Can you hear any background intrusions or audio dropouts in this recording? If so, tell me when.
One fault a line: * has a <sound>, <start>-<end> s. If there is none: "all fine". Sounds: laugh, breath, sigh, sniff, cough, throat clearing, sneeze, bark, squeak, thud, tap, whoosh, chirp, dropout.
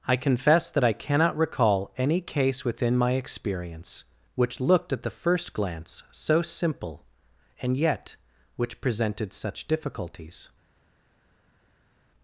all fine